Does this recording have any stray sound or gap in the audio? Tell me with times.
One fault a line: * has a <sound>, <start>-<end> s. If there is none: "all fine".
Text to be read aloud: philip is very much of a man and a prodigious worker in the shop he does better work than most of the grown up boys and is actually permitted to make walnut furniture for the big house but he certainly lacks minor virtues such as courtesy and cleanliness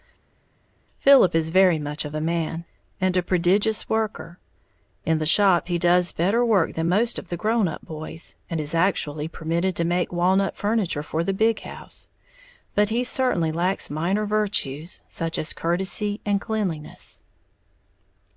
all fine